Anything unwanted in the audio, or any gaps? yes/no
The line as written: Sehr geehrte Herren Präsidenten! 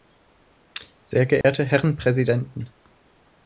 yes